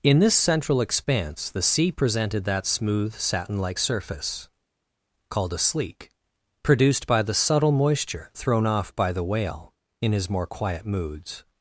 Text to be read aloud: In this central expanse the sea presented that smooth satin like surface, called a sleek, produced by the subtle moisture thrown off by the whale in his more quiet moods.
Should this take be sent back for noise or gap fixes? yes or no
no